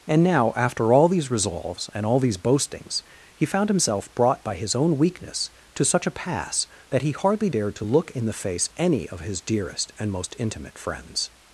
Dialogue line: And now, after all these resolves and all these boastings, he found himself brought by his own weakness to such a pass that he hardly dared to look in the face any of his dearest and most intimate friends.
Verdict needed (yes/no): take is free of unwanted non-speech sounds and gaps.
yes